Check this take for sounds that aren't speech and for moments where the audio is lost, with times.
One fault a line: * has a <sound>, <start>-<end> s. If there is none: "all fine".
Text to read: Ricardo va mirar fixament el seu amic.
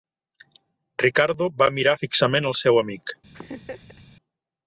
* has a laugh, 3.3-4.0 s